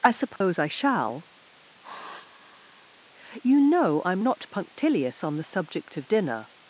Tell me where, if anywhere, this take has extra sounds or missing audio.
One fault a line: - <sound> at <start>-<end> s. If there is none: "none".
- dropout at 0.4-0.4 s
- sigh at 1.8-2.9 s